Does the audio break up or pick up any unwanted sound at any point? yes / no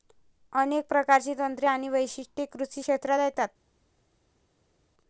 no